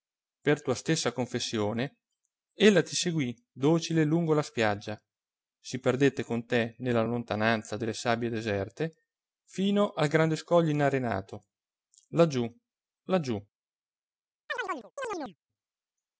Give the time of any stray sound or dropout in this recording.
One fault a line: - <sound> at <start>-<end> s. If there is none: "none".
- chirp at 14.5-15.4 s